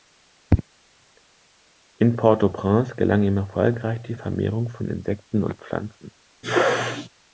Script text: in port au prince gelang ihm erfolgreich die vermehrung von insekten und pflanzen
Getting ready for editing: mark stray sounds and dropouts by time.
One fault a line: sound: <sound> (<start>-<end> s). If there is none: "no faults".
sound: sneeze (6.4-7.1 s)